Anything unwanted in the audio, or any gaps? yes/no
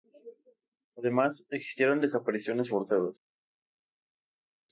no